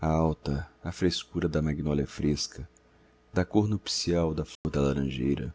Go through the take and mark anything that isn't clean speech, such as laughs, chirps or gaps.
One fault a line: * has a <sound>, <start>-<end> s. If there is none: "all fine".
* has a dropout, 4.6-4.6 s